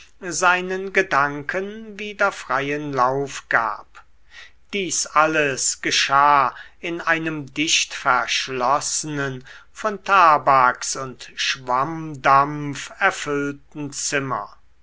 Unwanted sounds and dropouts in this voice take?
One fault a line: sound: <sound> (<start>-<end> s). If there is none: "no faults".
no faults